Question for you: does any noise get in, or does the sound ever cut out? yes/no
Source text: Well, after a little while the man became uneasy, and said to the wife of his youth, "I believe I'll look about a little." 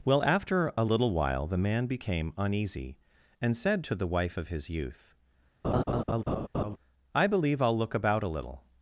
yes